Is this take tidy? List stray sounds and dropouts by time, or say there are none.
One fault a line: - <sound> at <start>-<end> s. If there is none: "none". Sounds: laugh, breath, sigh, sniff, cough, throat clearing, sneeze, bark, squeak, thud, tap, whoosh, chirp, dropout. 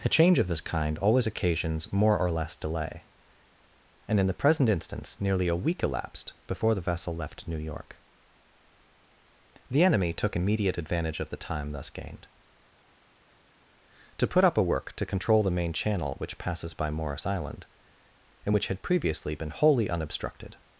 none